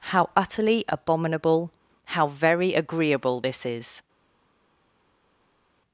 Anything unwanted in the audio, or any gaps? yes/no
no